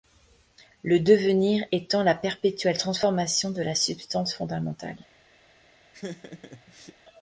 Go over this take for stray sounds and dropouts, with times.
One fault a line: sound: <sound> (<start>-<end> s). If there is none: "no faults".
sound: laugh (5.9-7.0 s)